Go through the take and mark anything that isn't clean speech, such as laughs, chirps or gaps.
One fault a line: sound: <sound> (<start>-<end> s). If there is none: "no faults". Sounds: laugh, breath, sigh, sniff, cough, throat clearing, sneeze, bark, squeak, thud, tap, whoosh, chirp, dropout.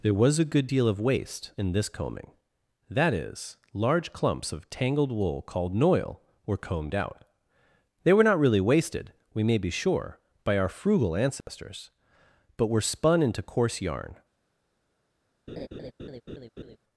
sound: dropout (11.4-11.5 s)
sound: laugh (15.5-16.8 s)